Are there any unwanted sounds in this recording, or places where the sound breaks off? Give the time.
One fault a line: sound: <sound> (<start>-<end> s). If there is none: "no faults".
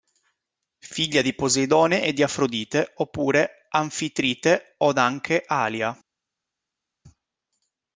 no faults